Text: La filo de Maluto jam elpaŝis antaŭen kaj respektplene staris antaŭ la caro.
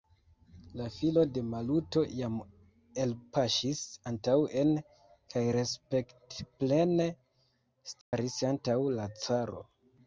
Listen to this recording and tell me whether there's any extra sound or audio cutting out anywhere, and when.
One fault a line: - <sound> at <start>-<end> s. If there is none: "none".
- dropout at 8.0-8.1 s